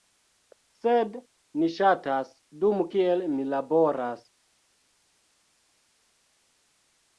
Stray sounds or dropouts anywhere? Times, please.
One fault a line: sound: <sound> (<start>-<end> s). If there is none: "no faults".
no faults